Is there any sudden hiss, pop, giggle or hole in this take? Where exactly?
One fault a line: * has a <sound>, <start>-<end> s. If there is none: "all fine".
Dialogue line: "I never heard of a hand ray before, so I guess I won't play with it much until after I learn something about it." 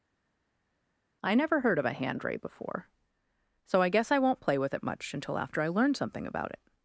all fine